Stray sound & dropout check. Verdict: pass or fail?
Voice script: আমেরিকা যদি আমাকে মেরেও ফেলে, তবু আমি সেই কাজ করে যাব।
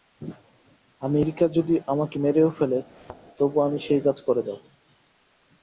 fail